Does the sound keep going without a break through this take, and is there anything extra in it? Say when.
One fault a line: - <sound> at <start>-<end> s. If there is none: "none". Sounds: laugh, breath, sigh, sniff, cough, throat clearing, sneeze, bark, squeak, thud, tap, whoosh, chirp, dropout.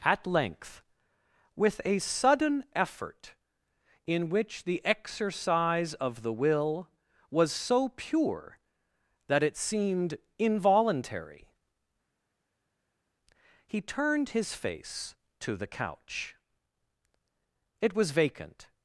none